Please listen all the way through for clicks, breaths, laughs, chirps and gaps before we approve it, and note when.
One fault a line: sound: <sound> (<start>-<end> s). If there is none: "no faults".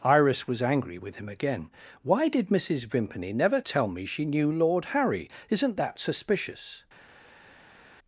no faults